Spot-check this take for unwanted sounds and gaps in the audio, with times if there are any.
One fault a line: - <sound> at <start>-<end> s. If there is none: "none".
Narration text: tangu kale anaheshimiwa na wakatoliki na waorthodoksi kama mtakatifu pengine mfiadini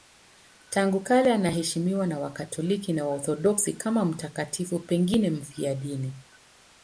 none